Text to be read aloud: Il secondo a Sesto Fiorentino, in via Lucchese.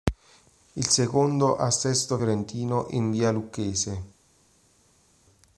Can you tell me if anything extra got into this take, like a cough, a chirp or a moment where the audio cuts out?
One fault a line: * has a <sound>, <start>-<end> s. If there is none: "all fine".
all fine